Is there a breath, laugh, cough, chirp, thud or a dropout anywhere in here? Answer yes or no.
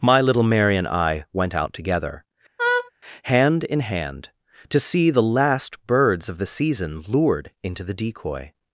yes